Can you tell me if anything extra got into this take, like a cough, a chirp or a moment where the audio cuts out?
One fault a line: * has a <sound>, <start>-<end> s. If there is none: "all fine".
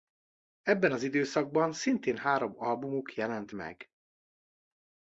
all fine